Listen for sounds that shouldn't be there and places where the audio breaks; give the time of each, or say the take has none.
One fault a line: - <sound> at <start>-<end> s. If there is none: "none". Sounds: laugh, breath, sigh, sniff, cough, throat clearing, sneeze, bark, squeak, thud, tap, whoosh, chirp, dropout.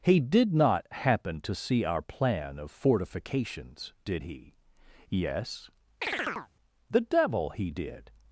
- chirp at 6.0-6.5 s